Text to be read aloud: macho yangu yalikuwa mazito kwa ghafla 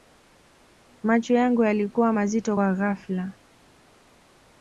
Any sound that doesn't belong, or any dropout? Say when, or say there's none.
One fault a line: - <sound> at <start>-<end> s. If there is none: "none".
none